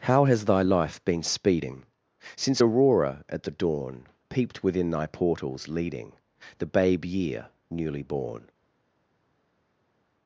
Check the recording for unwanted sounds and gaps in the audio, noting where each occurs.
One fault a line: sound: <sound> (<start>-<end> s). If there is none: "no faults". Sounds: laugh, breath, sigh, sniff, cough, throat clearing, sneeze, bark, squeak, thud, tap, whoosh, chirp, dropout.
no faults